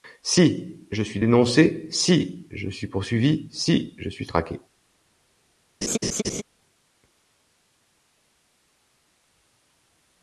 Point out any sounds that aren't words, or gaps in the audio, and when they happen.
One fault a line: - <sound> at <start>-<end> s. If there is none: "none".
- laugh at 5.8-6.4 s